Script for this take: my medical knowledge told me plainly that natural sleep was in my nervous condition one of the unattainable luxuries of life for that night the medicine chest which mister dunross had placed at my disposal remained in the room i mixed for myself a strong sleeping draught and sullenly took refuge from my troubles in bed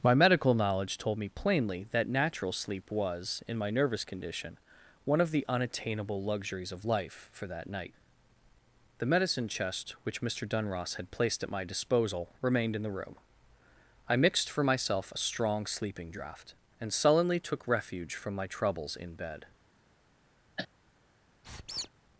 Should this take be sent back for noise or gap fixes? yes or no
yes